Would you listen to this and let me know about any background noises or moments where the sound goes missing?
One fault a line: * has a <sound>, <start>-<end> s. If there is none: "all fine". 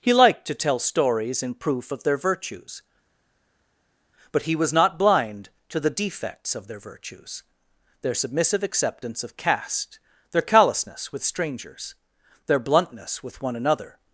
all fine